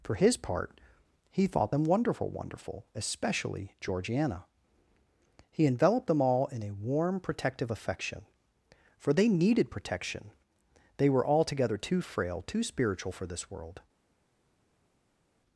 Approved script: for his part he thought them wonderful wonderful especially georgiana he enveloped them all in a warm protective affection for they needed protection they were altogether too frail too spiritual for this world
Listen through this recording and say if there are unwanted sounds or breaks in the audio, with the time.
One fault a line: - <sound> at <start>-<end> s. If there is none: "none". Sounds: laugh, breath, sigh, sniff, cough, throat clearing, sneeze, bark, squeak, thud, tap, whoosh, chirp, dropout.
none